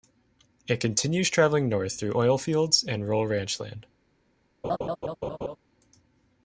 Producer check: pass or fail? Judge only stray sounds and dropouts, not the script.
fail